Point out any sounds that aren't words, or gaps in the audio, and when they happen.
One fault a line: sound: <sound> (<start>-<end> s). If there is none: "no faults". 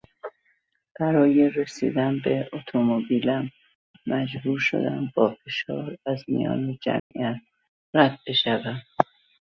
sound: dropout (7.0-7.1 s)